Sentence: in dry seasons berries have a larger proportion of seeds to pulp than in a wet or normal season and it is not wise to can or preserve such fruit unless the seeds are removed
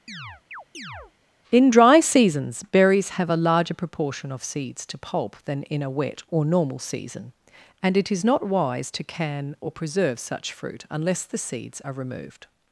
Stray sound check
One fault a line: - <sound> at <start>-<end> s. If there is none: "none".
- chirp at 0.1-1.1 s